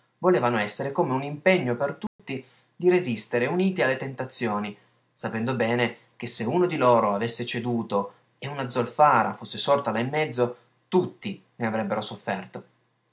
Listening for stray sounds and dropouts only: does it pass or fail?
fail